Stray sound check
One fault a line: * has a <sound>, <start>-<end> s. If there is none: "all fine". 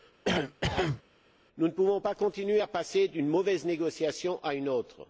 * has a cough, 0.2-1.0 s